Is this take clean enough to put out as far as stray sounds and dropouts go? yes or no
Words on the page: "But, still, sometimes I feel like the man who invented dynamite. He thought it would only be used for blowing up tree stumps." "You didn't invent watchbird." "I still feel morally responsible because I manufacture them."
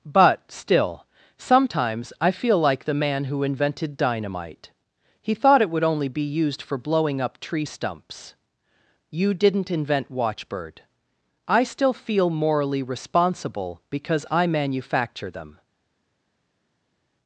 yes